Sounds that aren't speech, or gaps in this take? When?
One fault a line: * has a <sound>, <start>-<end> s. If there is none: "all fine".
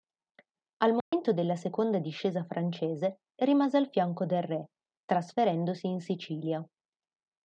* has a dropout, 1.0-1.1 s